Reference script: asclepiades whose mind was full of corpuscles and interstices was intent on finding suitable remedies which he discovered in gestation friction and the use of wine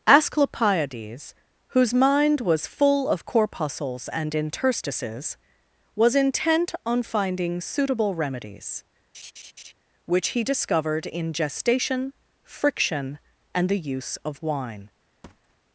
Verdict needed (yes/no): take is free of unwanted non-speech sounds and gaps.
no